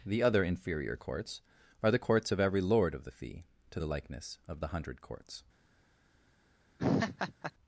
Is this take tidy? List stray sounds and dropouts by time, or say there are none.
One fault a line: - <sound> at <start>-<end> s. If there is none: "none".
- laugh at 6.8-7.5 s